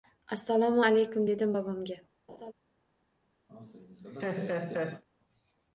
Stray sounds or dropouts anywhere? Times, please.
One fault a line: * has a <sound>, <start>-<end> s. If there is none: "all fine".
* has a laugh, 2.3-2.5 s
* has a laugh, 3.5-5.0 s